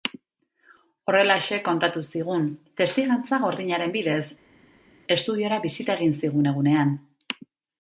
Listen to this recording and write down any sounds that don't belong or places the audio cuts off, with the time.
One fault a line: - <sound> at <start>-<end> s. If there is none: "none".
none